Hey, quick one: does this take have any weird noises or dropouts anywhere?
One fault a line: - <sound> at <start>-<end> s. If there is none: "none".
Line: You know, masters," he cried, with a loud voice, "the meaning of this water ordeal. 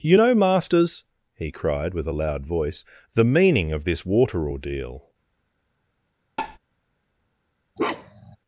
- tap at 6.4-6.6 s
- bark at 7.8-8.4 s